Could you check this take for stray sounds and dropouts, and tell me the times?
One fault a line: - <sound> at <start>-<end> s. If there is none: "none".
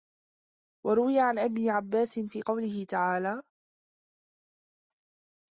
none